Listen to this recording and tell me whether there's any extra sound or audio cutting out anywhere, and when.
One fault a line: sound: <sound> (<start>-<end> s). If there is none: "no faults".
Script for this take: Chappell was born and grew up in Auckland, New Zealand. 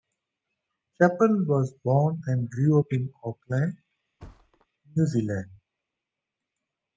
sound: thud (4.2-4.7 s)